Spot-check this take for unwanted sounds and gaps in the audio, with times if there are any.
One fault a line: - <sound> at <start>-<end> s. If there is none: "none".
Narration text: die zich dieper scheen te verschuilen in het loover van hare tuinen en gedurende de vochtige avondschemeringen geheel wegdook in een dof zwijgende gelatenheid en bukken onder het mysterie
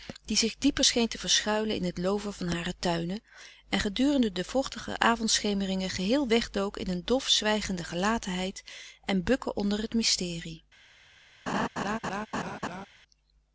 - laugh at 11.5-12.9 s